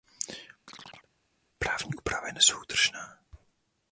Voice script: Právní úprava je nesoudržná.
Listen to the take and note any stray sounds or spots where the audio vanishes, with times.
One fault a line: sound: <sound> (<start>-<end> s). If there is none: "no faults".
sound: chirp (0.7-1.1 s)